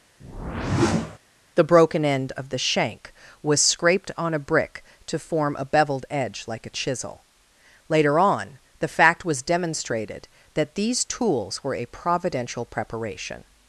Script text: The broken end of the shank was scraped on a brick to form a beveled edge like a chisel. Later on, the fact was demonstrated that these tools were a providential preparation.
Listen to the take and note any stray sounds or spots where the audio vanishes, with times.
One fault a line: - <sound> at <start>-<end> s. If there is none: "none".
- whoosh at 0.2-1.2 s